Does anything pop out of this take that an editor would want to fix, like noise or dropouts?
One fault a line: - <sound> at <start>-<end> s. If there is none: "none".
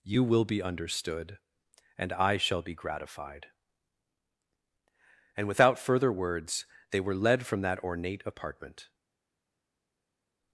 none